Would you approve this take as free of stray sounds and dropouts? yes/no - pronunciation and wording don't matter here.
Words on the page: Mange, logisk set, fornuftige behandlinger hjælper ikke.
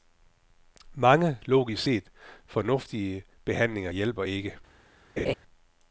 no